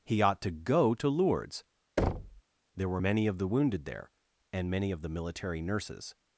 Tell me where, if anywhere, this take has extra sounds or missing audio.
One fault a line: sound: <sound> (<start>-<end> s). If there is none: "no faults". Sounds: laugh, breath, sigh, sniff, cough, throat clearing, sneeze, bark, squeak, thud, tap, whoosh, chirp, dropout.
sound: thud (2.0-2.4 s)